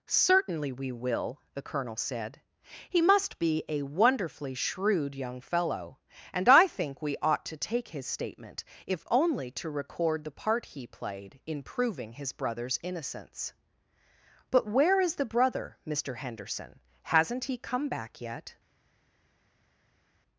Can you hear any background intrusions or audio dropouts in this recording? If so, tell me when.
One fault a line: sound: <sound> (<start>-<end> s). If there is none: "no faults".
no faults